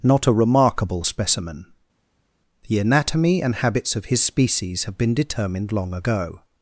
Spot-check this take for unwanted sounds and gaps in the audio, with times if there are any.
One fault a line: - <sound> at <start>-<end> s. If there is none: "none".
none